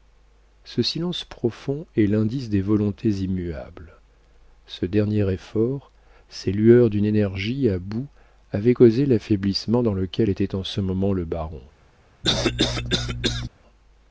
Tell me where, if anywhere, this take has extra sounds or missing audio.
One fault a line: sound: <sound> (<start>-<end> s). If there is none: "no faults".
sound: cough (12.2-13.5 s)